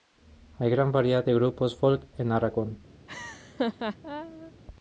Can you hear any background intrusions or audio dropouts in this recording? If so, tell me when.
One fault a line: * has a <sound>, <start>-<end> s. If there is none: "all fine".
* has a laugh, 3.1-4.5 s